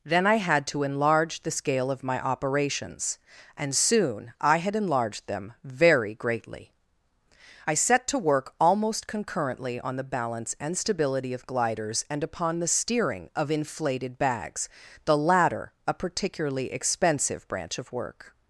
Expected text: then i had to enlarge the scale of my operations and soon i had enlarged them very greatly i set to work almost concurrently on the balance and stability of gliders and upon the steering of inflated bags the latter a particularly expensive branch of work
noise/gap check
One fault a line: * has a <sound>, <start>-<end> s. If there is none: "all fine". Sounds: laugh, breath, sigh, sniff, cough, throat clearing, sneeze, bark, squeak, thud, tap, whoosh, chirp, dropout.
all fine